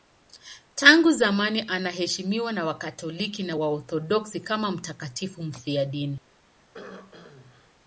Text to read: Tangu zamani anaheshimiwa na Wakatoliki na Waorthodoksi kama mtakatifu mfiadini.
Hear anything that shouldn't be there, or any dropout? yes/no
yes